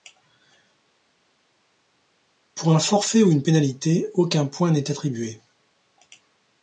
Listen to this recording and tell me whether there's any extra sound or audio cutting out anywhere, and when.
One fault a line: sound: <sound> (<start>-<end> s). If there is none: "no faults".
no faults